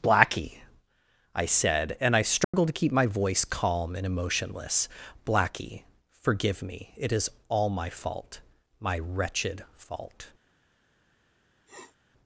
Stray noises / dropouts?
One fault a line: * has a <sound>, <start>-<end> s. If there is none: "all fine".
* has a dropout, 2.4-2.5 s
* has a sniff, 11.7-12.0 s